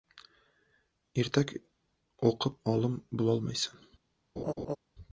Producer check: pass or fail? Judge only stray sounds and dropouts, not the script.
fail